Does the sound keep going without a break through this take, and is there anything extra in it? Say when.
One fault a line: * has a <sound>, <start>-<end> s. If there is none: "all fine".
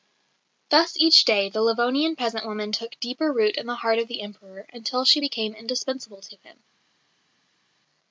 all fine